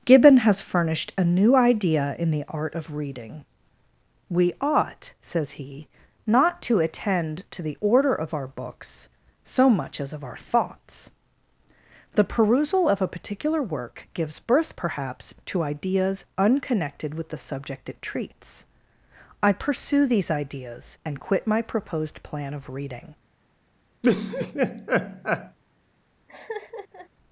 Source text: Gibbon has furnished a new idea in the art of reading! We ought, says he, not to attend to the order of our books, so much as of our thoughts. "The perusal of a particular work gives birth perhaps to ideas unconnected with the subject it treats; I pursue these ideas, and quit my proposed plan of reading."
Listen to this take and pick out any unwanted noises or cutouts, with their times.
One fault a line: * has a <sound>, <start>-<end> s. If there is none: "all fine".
* has a laugh, 24.0-25.6 s
* has a laugh, 26.3-27.1 s